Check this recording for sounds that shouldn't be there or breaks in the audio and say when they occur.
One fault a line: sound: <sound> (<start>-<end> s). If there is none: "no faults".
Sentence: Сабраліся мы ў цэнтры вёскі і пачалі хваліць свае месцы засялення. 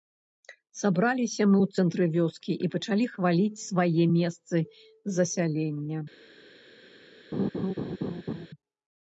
sound: laugh (7.3-8.5 s)